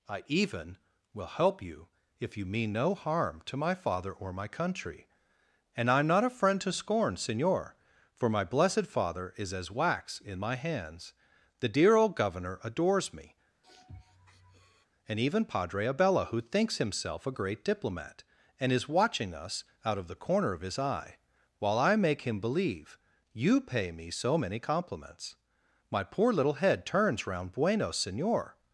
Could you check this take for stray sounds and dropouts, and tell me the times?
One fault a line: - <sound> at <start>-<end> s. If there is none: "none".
- sniff at 13.6-14.9 s